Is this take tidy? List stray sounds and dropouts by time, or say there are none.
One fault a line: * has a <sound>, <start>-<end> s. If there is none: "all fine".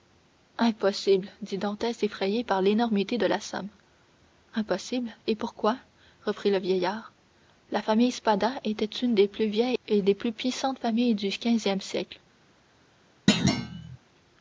* has a thud, 13.3-14.0 s